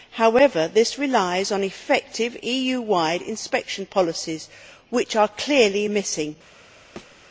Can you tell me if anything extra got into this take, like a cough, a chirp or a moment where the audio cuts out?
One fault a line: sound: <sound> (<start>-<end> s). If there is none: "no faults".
sound: thud (7.0-7.2 s)